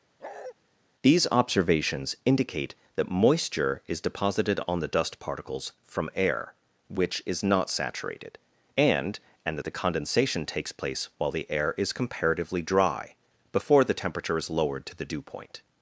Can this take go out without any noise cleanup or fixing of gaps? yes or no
no